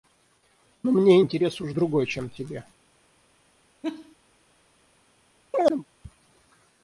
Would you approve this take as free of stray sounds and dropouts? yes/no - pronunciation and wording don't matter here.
no